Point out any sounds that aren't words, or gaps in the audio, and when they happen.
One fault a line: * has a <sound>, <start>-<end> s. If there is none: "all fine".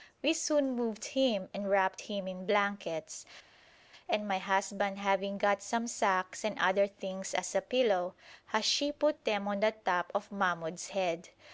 all fine